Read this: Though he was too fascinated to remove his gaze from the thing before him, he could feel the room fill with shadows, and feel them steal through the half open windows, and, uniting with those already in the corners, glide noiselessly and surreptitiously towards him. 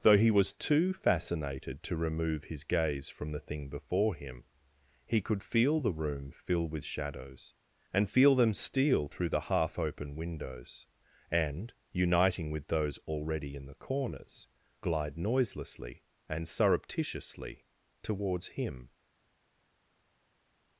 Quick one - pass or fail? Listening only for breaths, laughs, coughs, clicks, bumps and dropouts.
pass